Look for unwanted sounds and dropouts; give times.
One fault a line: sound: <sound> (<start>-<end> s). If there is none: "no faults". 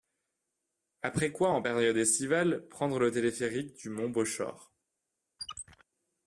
sound: squeak (5.4-5.8 s)